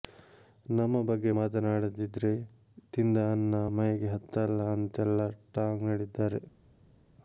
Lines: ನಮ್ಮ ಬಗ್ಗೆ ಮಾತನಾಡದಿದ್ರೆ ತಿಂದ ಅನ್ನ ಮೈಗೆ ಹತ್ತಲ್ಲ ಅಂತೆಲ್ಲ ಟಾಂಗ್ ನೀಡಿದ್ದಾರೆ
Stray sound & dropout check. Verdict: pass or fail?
pass